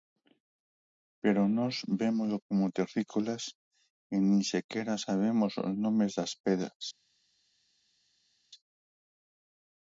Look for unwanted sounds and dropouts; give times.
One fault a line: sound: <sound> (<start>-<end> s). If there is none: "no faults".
no faults